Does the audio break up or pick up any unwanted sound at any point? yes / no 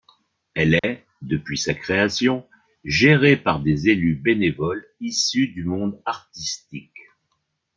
yes